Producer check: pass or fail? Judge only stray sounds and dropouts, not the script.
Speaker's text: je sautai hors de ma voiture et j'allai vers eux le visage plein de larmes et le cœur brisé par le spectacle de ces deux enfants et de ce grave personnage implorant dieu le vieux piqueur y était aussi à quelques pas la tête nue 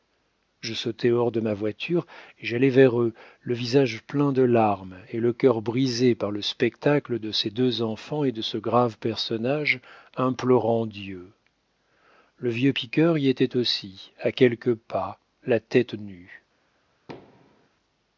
fail